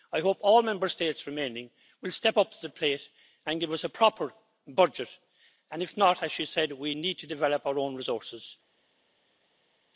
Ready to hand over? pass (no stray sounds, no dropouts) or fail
pass